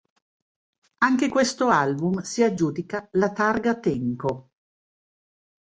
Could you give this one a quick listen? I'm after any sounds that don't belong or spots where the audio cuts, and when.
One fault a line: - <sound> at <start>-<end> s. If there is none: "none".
none